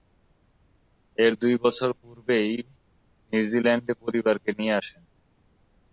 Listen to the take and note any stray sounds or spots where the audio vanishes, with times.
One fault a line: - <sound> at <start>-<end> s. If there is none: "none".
none